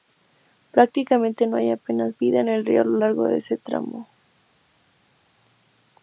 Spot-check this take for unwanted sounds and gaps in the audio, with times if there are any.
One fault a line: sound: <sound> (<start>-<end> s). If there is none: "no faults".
no faults